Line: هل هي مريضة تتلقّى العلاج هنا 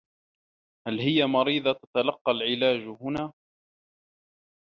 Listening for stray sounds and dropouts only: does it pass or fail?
pass